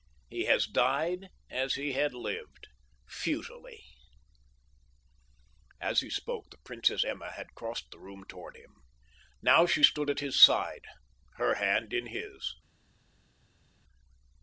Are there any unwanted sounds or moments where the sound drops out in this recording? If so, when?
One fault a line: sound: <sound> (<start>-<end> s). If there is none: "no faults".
no faults